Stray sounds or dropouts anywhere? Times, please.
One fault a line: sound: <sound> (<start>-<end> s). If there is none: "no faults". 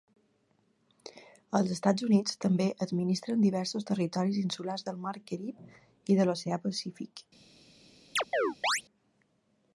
sound: chirp (8.2-8.8 s)